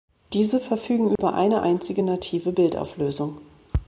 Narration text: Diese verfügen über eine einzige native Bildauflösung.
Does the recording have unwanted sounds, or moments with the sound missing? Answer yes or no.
yes